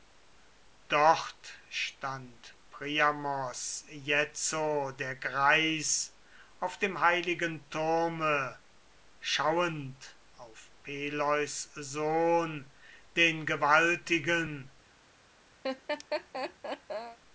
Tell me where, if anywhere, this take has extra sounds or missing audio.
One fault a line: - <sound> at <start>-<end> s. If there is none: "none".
- laugh at 15.6-17.2 s